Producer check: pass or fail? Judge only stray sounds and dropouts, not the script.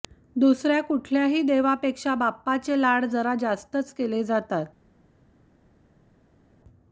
pass